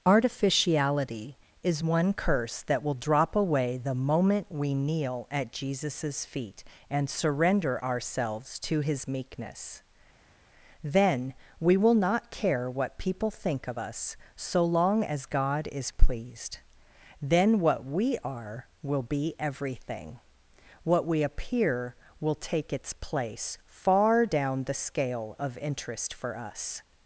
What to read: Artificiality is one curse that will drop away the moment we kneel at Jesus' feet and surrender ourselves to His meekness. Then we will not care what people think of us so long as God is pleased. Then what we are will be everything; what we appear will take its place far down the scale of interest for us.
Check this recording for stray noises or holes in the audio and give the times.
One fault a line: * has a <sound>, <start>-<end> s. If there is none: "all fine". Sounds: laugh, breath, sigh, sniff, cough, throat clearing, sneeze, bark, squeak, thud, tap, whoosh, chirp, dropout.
all fine